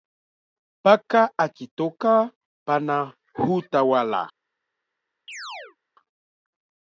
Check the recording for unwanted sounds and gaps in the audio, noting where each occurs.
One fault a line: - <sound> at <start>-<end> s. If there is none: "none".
- chirp at 5.3-5.8 s